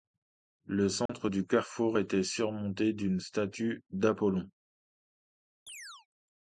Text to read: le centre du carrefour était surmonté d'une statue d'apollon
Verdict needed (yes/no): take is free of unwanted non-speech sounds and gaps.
no